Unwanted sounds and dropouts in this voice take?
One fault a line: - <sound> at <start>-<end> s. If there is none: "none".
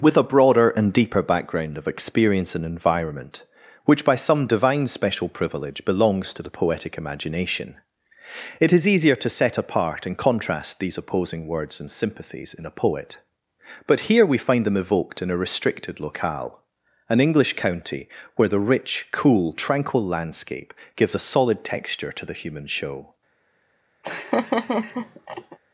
- laugh at 24.0-25.6 s